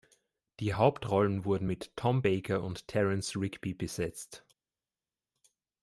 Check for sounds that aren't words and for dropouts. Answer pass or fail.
pass